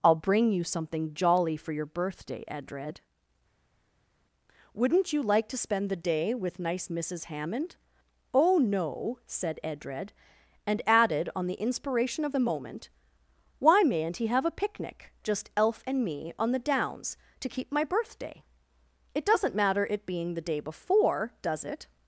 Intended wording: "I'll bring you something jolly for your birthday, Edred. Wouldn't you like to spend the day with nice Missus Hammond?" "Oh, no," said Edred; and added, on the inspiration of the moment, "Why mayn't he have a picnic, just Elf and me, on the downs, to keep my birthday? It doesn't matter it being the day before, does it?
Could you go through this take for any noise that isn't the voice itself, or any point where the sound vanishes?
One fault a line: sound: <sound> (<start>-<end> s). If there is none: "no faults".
no faults